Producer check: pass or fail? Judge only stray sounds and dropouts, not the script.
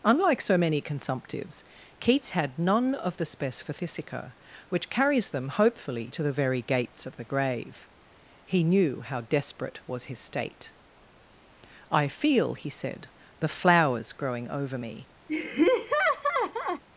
fail